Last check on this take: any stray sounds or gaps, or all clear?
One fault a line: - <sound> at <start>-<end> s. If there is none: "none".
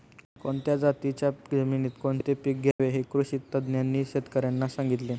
- dropout at 2.7-2.8 s